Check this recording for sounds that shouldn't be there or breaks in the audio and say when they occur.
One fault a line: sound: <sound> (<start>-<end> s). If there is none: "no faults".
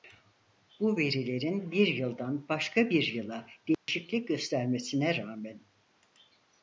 sound: dropout (3.7-3.9 s)